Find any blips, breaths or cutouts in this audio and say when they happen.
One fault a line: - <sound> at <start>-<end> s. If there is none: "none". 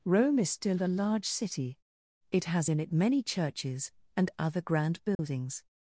- dropout at 5.1-5.2 s